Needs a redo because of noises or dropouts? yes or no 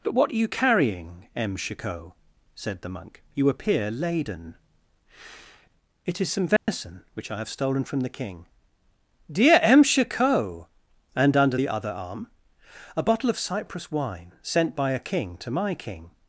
yes